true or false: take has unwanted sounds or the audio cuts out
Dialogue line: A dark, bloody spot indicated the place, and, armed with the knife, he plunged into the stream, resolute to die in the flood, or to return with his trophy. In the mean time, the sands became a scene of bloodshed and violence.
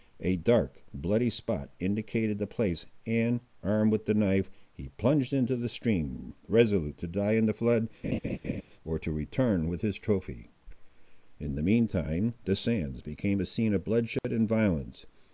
true